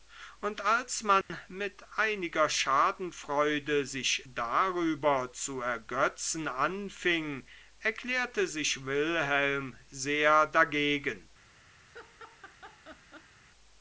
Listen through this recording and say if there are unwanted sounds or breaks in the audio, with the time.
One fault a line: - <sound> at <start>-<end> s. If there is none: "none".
- dropout at 1.2-1.3 s
- laugh at 11.8-13.4 s